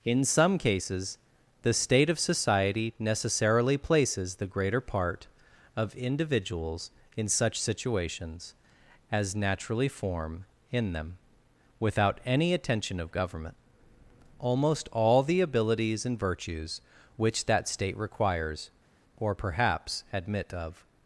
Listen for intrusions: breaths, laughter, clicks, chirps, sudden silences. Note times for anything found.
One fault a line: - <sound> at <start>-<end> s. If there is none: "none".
none